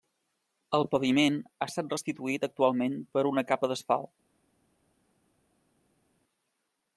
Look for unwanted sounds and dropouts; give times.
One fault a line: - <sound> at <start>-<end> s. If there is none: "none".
none